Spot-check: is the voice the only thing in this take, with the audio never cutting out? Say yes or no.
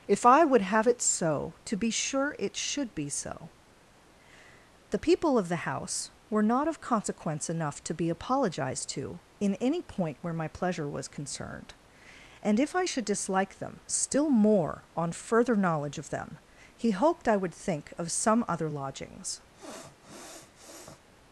no